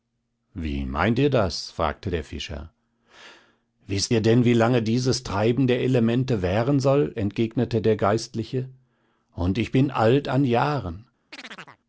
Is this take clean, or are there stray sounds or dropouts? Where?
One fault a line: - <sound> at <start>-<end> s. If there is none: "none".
- chirp at 11.3-11.8 s